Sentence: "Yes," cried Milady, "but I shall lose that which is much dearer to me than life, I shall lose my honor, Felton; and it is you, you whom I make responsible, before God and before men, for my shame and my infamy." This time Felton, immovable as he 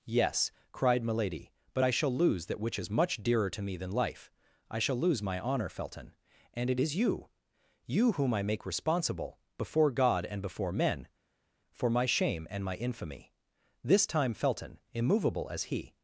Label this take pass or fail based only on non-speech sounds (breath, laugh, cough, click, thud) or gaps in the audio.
pass